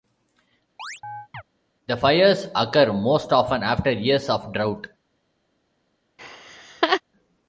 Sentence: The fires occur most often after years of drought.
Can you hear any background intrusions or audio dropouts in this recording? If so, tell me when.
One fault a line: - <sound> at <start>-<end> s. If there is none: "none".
- chirp at 0.8-1.4 s
- laugh at 6.2-7.0 s